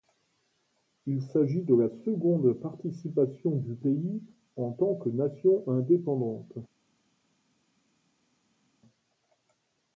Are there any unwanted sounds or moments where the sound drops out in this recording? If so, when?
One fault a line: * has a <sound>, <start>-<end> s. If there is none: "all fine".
all fine